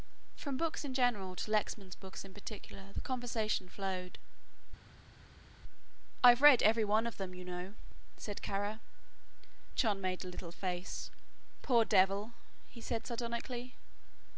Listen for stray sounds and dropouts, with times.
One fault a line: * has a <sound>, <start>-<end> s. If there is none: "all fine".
all fine